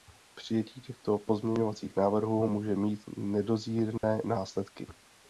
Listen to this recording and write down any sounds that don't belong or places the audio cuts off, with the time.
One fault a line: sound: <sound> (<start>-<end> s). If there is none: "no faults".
sound: dropout (4.0-4.0 s)